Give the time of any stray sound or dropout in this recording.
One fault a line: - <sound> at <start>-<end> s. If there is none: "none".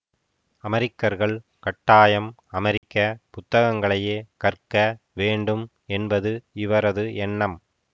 - dropout at 2.8-2.8 s